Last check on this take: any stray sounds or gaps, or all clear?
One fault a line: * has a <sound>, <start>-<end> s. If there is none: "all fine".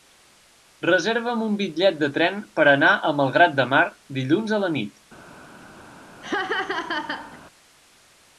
* has a laugh, 6.2-7.4 s